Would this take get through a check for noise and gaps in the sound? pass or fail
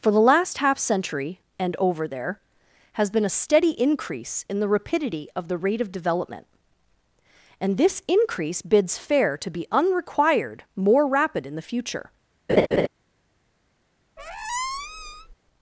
fail